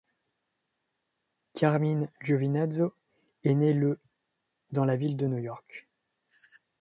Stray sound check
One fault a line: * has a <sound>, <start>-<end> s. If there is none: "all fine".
all fine